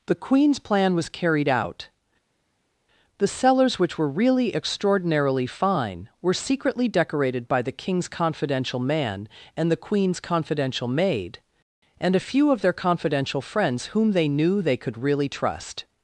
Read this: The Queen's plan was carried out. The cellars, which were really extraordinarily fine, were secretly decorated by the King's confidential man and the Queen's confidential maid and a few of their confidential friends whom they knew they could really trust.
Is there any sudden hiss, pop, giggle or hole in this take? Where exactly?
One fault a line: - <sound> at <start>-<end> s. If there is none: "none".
none